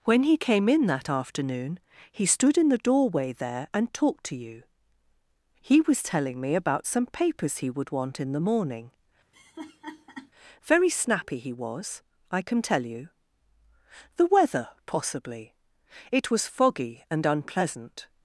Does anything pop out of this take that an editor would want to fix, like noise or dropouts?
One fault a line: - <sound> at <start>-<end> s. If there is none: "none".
- laugh at 9.3-10.3 s